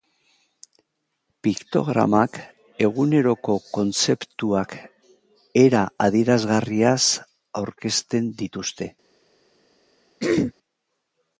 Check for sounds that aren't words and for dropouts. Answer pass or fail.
fail